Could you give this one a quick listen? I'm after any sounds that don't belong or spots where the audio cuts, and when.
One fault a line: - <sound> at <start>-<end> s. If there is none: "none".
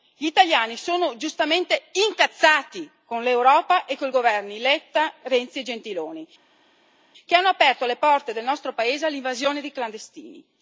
none